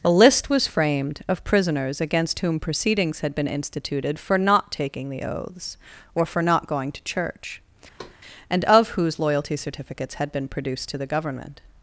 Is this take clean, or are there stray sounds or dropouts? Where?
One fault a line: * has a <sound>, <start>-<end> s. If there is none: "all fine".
* has a thud, 8.0-8.2 s